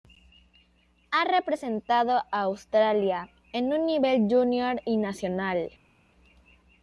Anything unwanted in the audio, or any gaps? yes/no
no